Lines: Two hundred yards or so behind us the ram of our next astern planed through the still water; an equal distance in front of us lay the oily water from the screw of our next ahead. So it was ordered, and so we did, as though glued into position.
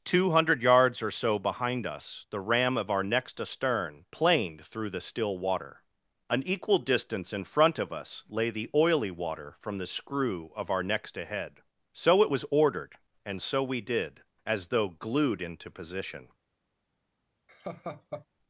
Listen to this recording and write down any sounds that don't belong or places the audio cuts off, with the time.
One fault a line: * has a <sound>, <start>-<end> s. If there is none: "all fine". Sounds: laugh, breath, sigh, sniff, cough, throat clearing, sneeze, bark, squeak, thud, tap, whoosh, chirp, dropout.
* has a laugh, 17.5-18.3 s